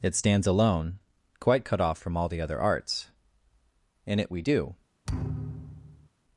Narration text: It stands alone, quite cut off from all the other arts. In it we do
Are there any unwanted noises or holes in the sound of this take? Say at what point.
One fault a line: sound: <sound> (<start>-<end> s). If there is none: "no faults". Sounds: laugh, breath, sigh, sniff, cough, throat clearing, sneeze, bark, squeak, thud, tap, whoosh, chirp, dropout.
sound: thud (5.1-6.1 s)